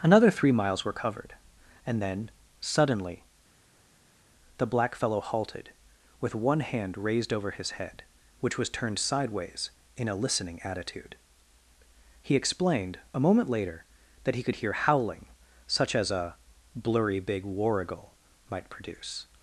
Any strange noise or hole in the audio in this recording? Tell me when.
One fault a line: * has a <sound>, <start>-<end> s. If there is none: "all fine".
all fine